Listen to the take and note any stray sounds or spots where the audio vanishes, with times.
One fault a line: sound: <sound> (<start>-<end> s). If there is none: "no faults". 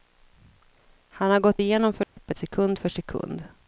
sound: dropout (2.0-2.2 s)